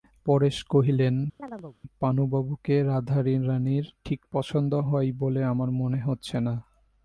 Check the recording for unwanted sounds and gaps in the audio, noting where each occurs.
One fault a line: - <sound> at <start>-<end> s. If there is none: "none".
- chirp at 1.4-1.8 s